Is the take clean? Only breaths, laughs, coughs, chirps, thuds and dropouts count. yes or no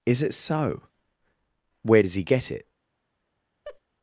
no